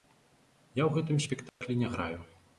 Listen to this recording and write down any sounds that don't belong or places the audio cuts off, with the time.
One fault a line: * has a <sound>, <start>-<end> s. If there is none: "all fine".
* has a dropout, 1.5-1.6 s